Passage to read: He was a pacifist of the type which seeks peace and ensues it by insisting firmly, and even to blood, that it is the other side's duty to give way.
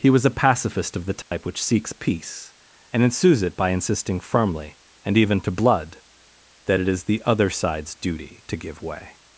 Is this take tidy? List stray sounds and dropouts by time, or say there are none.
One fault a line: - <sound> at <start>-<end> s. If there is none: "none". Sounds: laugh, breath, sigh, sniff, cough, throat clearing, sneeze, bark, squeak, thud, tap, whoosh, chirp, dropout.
- dropout at 1.2-1.3 s